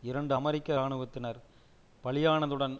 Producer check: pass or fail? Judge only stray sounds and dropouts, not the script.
pass